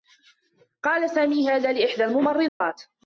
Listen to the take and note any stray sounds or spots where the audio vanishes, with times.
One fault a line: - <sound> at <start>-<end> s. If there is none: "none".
- dropout at 2.5-2.6 s